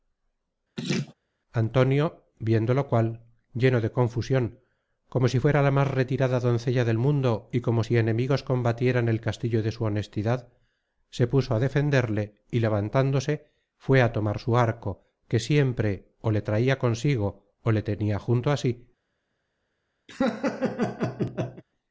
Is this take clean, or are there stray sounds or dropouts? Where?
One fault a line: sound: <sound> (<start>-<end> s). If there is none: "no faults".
sound: laugh (0.8-1.1 s)
sound: laugh (20.1-21.6 s)